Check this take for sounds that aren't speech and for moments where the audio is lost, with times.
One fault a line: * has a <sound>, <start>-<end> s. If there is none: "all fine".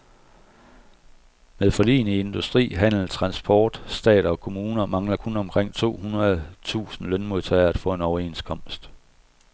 all fine